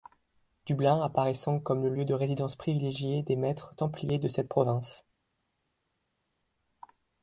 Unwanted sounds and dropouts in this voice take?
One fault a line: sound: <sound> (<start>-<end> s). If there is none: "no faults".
no faults